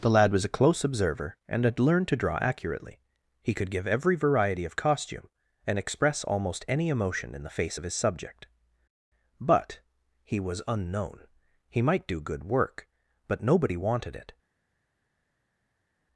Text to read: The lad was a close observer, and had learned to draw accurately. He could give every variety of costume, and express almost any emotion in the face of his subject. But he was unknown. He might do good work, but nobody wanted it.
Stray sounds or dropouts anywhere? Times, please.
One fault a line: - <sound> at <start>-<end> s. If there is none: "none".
none